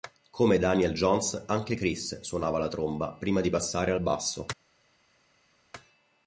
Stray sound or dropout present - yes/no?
no